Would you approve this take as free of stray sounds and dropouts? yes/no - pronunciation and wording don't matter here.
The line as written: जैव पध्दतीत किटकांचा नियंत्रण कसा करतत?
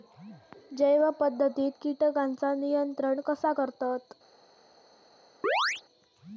no